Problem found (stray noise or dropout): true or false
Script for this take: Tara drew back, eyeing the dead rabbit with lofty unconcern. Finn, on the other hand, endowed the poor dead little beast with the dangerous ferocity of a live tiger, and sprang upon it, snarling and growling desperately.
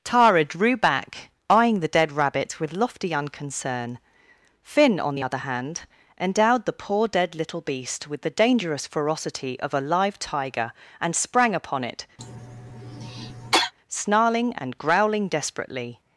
true